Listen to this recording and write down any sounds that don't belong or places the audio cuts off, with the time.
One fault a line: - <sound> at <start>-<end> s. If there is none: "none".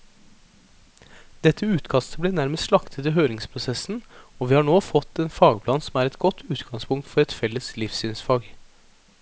none